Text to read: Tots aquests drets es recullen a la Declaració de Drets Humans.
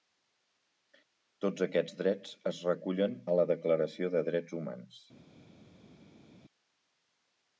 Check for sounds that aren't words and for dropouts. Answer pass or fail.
pass